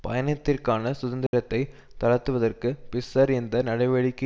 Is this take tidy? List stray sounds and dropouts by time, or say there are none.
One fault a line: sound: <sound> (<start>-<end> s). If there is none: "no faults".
sound: dropout (1.3-1.3 s)